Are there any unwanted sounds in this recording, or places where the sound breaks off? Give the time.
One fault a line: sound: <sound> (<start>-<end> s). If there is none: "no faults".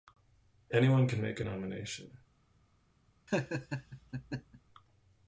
sound: laugh (3.3-4.6 s)